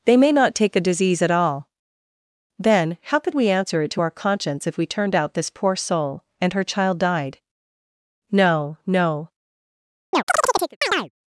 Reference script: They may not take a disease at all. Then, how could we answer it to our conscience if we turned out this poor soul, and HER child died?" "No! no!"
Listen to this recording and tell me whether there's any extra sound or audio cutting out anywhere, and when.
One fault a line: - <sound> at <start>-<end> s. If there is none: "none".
- chirp at 10.1-11.1 s